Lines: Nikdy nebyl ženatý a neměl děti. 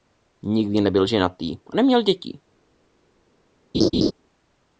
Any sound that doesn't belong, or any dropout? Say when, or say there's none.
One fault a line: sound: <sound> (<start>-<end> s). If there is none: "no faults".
sound: laugh (3.7-4.1 s)